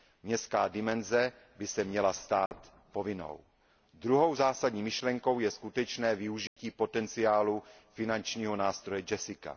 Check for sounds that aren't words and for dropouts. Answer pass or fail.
fail